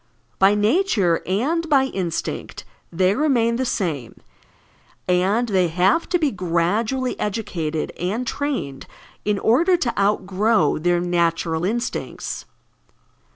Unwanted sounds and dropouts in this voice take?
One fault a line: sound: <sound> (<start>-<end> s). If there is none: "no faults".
no faults